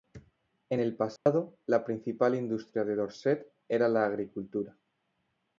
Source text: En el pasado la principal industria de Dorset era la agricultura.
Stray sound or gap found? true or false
true